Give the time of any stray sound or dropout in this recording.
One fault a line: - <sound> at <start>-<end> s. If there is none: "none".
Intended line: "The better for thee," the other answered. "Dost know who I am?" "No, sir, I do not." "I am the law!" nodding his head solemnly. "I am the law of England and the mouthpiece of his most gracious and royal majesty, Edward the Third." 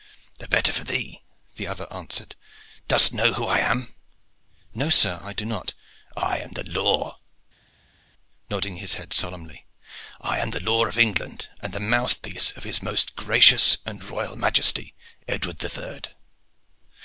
none